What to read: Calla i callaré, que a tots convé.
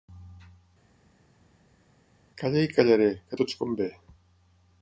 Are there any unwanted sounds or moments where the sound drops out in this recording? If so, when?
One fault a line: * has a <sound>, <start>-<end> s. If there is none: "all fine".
all fine